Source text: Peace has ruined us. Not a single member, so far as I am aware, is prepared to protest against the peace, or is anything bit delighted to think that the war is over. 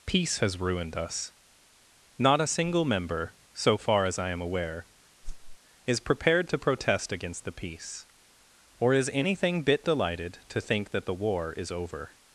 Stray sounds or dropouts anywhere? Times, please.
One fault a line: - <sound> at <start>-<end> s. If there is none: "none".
- whoosh at 5.2-5.6 s